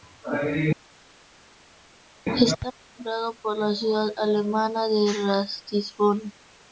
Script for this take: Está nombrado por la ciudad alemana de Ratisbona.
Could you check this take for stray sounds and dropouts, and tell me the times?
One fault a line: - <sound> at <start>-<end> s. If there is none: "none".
none